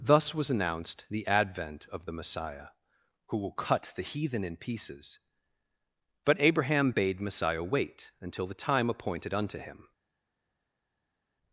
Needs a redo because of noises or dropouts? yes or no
no